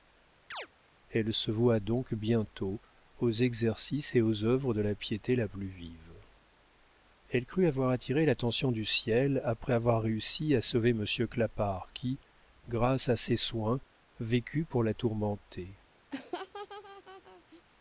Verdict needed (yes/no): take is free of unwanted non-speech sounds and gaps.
no